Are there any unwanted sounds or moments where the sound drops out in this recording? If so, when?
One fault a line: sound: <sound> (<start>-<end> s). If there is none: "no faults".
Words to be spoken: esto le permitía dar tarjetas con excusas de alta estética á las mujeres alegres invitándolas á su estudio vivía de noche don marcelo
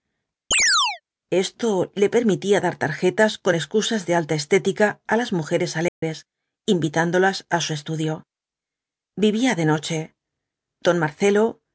sound: chirp (0.5-1.0 s)
sound: dropout (5.9-6.0 s)